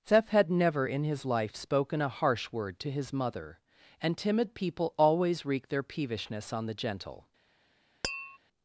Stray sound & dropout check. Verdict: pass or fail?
fail